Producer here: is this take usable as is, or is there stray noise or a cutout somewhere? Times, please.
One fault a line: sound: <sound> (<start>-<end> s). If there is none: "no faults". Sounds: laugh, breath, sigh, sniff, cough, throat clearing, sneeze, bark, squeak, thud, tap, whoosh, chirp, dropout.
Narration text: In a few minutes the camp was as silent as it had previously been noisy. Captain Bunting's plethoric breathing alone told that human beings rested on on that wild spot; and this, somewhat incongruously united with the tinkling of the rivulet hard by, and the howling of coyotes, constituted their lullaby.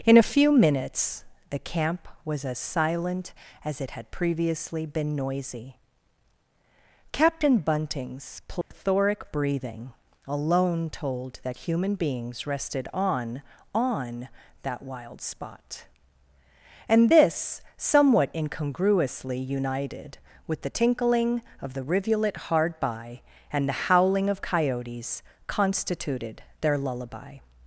sound: dropout (8.6-8.7 s)